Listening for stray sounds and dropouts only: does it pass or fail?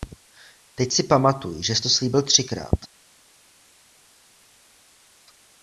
pass